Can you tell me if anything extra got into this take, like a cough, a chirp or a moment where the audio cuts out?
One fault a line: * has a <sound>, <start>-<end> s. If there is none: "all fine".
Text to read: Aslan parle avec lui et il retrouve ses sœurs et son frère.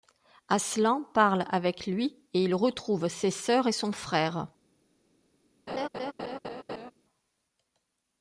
* has a laugh, 5.7-6.9 s